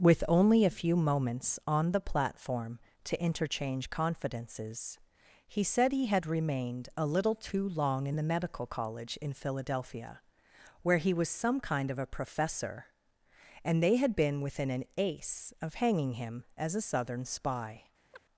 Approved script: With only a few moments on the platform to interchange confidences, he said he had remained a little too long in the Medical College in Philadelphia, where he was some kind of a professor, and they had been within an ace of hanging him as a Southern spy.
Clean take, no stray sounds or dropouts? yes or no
no